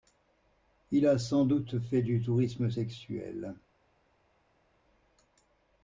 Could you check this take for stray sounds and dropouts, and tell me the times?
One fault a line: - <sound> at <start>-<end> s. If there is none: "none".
none